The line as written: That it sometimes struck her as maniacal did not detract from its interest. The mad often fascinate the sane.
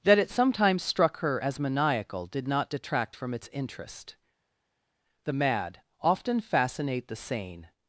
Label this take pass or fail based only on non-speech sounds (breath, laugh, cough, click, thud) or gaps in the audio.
pass